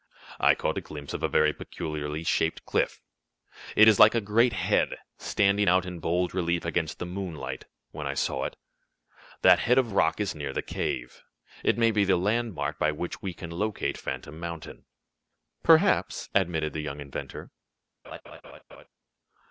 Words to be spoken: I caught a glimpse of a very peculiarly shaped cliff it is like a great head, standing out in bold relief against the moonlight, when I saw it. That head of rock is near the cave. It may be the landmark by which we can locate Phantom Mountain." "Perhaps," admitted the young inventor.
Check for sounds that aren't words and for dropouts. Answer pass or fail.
fail